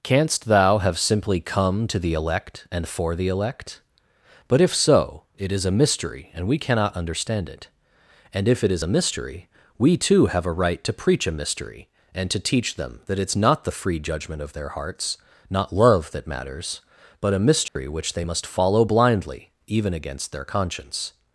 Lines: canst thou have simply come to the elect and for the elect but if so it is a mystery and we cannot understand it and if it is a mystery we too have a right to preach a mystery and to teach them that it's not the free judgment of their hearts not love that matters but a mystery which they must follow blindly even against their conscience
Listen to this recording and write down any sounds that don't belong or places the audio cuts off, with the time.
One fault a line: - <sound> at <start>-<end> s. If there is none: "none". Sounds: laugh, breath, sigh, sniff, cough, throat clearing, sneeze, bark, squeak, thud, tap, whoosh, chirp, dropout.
- dropout at 17.7-17.8 s